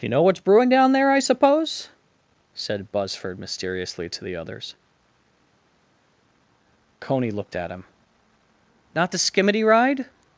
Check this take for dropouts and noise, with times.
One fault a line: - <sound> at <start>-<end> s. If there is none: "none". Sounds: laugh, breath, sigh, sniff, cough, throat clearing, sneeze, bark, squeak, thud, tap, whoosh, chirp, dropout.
none